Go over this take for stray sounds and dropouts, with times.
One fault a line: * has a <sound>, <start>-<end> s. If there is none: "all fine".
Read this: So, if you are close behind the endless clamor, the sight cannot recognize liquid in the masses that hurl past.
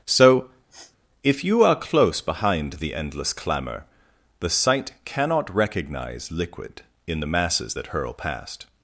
* has a sniff, 0.7-1.0 s